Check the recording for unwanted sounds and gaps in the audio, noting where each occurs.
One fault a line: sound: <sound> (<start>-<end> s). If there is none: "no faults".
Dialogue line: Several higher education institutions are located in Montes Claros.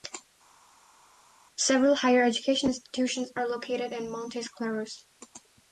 no faults